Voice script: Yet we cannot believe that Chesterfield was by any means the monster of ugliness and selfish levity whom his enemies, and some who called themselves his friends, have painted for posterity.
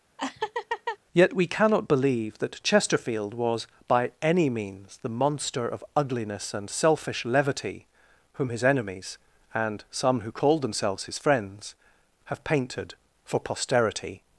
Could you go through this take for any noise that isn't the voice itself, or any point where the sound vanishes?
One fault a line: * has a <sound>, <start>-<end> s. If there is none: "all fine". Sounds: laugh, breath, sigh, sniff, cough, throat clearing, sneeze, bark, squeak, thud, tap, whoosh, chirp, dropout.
* has a laugh, 0.2-1.0 s